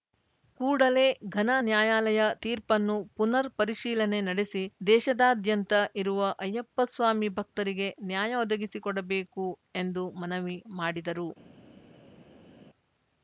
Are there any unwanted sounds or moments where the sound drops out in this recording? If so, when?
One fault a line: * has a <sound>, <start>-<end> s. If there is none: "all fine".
all fine